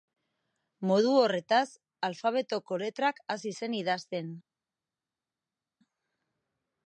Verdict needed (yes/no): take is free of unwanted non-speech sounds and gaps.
yes